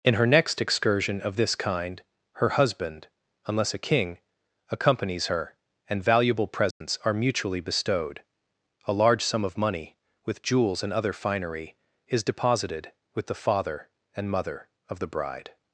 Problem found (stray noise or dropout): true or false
true